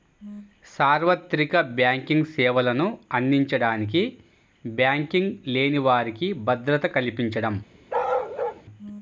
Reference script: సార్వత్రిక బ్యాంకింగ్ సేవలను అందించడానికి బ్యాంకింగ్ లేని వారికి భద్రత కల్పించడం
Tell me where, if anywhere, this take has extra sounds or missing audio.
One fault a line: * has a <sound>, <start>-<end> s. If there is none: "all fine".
* has a bark, 7.9-8.6 s